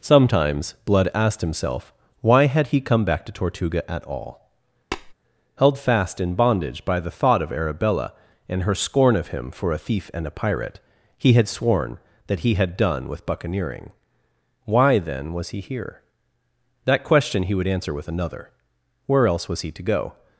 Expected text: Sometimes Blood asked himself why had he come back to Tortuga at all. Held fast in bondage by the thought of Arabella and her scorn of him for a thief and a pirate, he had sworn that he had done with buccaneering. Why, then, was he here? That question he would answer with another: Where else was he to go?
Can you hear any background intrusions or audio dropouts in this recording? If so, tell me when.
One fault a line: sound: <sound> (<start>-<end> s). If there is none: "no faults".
sound: tap (4.9-5.1 s)